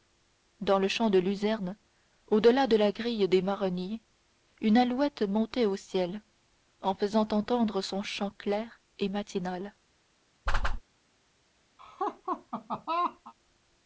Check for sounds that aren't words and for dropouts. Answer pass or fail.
fail